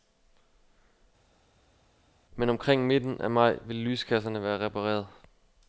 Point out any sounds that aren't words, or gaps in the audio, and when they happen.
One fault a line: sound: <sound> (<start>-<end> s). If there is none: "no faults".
no faults